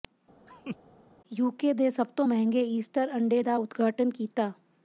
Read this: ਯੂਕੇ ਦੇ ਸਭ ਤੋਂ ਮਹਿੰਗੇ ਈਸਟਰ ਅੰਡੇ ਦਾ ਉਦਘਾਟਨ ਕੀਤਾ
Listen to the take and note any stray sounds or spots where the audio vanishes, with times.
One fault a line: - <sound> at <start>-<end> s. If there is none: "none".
- laugh at 0.5-0.8 s